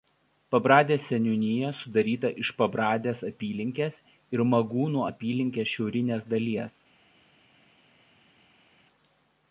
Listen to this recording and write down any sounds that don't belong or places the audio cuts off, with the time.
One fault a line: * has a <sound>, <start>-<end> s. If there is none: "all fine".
all fine